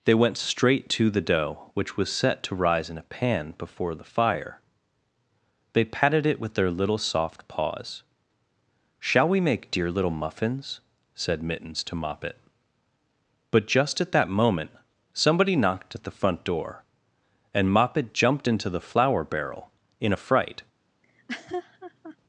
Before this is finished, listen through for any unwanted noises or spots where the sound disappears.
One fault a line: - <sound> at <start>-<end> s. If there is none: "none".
- laugh at 21.0-22.2 s